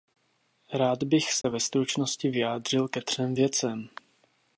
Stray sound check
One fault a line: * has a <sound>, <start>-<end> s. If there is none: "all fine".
* has a dropout, 1.4-1.4 s